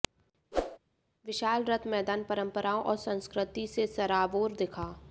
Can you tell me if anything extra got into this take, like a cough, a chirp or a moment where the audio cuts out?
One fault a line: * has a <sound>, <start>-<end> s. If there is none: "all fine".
* has a whoosh, 0.5-0.8 s